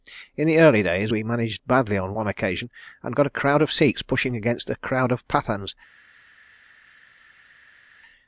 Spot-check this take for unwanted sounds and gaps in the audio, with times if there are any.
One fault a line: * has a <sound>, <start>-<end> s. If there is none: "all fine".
all fine